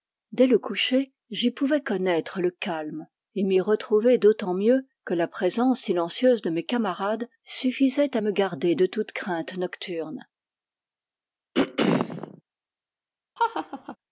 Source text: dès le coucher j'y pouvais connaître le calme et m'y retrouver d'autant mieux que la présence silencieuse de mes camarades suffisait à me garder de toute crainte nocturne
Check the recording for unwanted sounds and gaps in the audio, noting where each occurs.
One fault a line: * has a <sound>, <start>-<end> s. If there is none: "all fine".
* has a throat clearing, 11.5-12.4 s
* has a laugh, 13.4-14.0 s